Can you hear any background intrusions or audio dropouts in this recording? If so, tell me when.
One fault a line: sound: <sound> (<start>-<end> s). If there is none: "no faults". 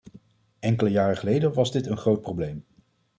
no faults